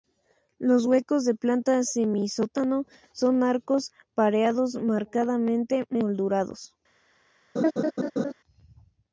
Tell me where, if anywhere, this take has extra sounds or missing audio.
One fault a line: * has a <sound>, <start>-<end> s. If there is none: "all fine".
* has a laugh, 7.6-8.3 s